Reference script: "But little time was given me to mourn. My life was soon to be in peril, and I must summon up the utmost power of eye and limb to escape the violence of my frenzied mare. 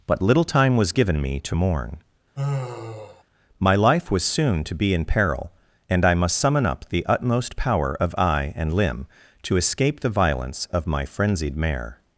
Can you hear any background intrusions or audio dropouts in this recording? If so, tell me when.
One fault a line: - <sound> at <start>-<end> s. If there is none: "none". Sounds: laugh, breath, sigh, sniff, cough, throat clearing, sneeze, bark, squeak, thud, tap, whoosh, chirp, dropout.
- sigh at 2.4-3.2 s